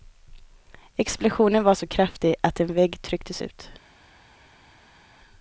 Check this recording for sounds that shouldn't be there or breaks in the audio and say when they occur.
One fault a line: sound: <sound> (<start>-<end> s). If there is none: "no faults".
no faults